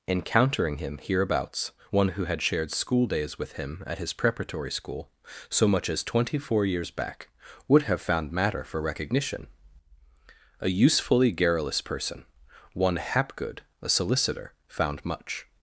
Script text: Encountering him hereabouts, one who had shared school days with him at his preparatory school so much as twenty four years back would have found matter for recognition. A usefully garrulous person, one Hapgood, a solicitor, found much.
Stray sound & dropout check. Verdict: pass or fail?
pass